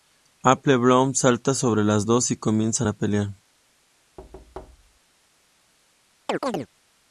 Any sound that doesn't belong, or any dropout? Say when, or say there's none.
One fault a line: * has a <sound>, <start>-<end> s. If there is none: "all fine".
* has a thud, 4.2-5.0 s
* has a chirp, 6.3-6.7 s